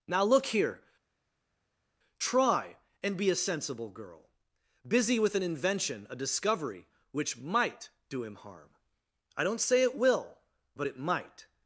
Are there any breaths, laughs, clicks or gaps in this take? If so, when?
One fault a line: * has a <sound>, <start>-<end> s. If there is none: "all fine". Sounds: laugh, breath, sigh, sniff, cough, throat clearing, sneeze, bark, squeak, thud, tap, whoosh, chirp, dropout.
all fine